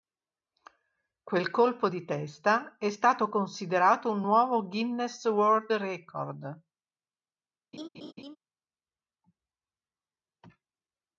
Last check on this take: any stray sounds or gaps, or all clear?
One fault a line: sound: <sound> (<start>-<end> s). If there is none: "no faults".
sound: laugh (7.7-8.4 s)